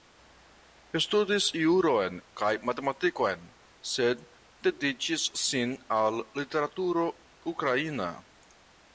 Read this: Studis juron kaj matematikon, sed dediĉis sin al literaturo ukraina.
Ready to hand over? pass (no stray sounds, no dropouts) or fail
pass